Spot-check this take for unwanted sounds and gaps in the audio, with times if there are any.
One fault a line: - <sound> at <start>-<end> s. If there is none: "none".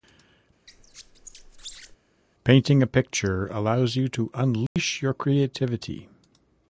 - squeak at 0.7-2.0 s
- dropout at 4.7-4.8 s